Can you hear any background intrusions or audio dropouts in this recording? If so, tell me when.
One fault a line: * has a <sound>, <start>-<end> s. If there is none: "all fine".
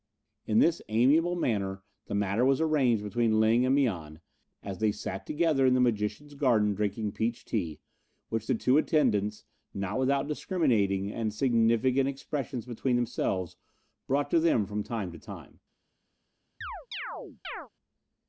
* has a chirp, 16.6-17.7 s